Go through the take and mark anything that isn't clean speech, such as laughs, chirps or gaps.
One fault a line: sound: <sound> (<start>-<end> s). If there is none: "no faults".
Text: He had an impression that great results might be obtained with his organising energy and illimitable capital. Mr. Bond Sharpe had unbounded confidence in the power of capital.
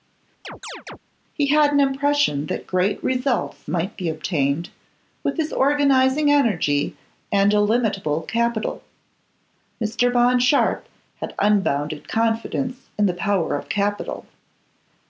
sound: chirp (0.4-1.0 s)